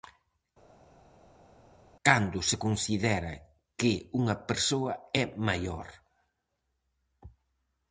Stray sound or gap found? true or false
false